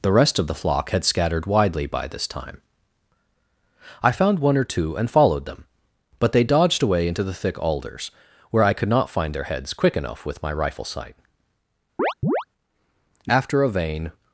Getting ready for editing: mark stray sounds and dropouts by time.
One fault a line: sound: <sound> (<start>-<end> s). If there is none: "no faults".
sound: chirp (12.0-12.4 s)